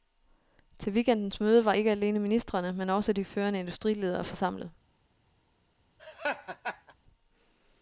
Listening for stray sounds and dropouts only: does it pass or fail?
fail